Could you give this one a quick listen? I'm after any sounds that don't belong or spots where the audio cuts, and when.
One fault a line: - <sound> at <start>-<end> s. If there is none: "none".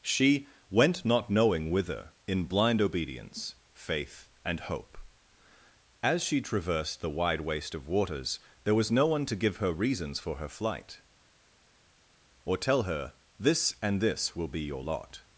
none